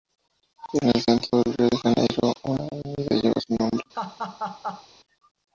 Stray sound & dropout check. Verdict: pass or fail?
fail